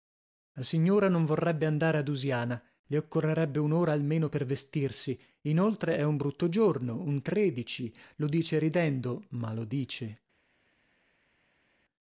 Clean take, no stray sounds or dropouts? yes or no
yes